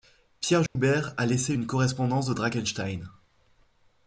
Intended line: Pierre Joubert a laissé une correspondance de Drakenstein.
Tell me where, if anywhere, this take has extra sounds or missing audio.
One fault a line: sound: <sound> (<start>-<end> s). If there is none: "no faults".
sound: dropout (0.7-0.8 s)